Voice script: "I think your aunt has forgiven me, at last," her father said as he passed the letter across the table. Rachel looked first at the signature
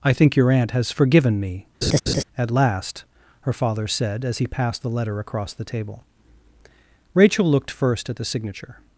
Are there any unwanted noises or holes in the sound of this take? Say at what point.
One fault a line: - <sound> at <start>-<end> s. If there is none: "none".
- laugh at 1.8-2.2 s